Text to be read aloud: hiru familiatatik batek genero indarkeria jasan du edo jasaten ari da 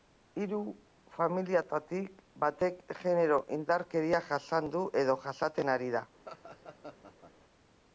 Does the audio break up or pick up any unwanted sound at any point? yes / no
yes